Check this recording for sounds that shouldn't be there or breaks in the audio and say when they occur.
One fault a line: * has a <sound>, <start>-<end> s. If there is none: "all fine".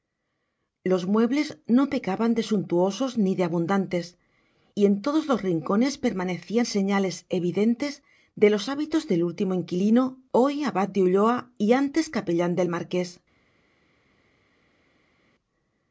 all fine